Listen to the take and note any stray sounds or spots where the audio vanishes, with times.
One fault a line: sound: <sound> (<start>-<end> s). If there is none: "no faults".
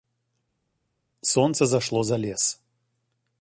no faults